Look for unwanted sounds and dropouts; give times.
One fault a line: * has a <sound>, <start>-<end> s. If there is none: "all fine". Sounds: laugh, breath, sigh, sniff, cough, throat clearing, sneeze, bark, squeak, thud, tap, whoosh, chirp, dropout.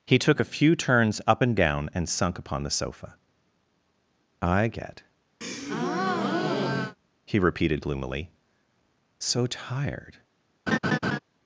* has a breath, 5.4-7.0 s
* has a laugh, 10.7-11.2 s